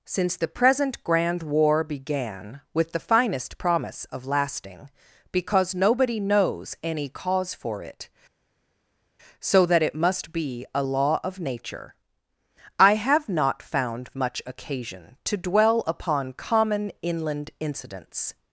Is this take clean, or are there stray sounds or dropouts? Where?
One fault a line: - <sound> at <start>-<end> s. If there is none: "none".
none